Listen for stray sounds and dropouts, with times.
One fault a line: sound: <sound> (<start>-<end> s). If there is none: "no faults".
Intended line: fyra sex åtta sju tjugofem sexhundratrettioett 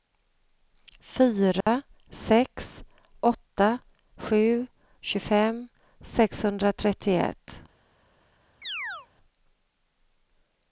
sound: dropout (1.6-1.7 s)
sound: chirp (8.6-9.1 s)